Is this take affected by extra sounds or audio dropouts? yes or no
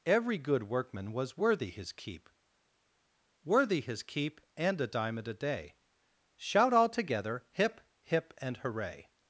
no